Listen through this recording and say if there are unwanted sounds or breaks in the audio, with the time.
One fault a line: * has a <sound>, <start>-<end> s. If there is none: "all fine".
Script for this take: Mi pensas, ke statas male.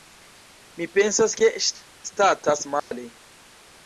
* has a dropout, 2.8-2.9 s